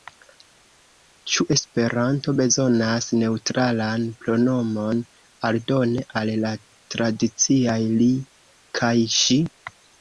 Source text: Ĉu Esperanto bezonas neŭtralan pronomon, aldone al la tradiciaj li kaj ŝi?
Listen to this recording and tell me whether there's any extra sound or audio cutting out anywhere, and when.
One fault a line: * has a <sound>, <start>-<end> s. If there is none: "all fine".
all fine